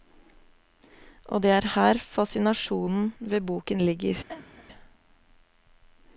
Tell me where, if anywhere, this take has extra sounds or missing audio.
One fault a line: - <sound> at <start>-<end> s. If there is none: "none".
- cough at 4.3-4.7 s